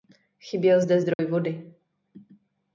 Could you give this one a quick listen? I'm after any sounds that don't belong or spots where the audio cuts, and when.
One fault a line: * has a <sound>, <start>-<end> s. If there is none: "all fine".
* has a dropout, 1.1-1.2 s